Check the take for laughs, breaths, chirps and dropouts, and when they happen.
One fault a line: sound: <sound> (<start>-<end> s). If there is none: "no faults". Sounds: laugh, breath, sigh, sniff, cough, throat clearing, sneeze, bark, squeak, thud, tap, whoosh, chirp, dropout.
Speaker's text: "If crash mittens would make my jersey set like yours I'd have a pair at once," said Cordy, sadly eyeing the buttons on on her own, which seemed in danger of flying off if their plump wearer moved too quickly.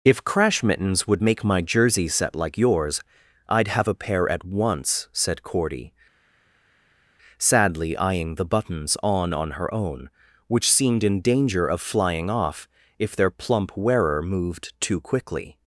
no faults